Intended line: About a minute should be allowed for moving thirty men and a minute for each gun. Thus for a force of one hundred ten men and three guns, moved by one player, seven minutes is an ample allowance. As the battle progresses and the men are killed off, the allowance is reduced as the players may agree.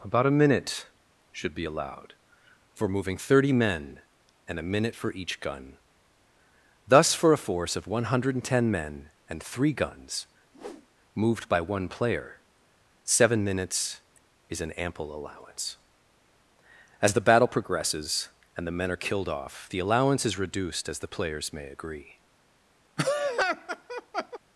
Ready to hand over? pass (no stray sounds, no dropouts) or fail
fail